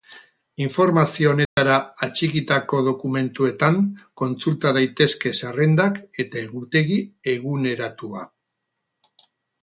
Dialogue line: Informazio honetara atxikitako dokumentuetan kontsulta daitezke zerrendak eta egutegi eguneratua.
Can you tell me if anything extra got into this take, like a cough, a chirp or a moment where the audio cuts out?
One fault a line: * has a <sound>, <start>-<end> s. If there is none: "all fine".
* has a dropout, 1.5-1.6 s